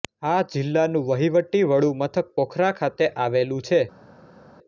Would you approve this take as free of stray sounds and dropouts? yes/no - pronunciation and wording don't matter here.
yes